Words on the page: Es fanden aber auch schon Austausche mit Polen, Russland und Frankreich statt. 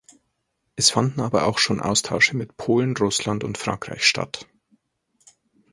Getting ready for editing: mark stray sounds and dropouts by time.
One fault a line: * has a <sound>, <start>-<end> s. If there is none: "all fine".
all fine